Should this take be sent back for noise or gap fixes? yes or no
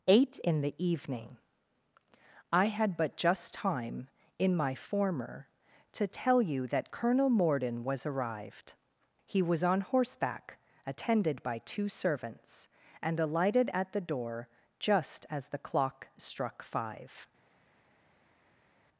no